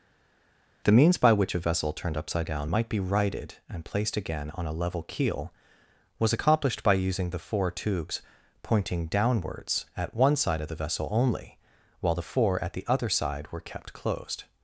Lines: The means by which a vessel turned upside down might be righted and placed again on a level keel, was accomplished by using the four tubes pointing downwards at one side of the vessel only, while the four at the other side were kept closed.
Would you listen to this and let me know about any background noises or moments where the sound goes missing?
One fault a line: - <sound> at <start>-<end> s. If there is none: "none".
none